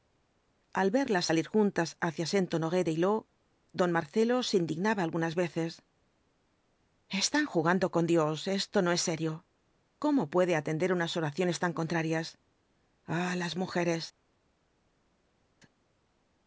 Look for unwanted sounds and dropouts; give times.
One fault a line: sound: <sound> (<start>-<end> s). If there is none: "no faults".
no faults